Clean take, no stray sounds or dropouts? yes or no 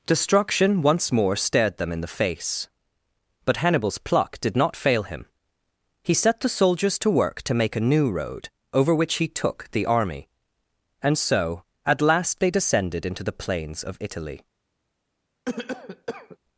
no